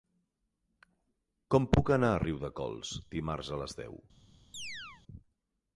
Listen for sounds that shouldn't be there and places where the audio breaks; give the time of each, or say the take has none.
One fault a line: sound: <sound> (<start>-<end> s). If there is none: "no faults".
sound: chirp (4.5-5.0 s)